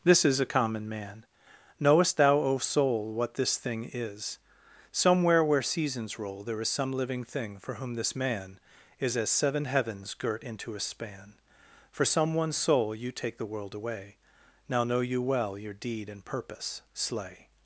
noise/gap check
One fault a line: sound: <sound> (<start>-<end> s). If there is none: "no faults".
no faults